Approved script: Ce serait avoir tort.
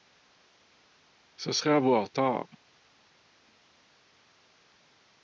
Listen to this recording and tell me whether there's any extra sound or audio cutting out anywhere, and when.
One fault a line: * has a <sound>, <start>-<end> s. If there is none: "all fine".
all fine